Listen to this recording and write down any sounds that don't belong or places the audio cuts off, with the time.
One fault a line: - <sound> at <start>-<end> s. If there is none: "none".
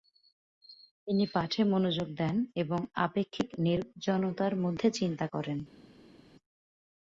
none